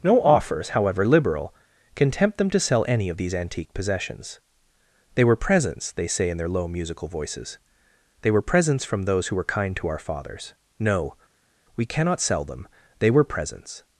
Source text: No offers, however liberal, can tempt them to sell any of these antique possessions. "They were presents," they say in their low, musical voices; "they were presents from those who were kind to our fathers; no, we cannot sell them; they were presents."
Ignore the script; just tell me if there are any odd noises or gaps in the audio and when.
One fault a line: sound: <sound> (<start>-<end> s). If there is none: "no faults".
no faults